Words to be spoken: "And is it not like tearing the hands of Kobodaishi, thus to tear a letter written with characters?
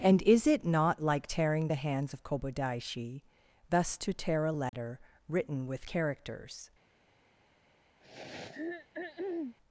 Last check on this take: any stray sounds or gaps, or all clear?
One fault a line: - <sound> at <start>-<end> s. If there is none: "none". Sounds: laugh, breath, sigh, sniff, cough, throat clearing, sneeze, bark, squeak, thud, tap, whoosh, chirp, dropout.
- dropout at 4.7-4.7 s
- throat clearing at 8.0-9.6 s